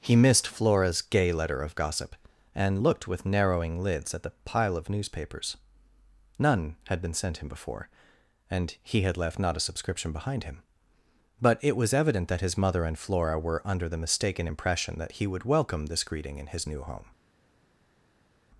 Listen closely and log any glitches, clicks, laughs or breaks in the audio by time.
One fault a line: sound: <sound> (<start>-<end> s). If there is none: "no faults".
no faults